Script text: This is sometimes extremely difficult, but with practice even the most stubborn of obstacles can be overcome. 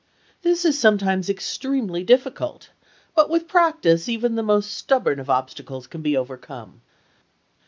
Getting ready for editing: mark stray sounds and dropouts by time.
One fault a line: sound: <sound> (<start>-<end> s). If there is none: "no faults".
no faults